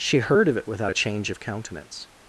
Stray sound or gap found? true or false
false